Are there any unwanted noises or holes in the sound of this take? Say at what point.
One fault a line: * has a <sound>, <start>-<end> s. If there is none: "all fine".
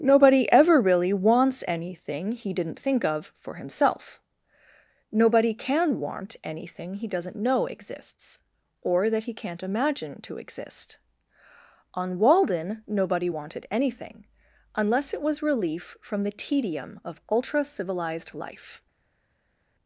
all fine